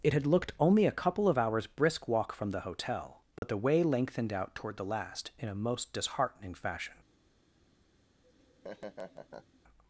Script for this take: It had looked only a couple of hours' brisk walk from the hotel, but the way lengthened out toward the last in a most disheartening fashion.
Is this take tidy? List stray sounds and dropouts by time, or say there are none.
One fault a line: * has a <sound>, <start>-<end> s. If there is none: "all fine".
* has a dropout, 3.4-3.4 s
* has a laugh, 8.2-9.6 s